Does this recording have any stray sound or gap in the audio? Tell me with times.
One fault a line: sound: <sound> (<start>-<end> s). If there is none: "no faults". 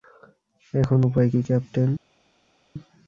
no faults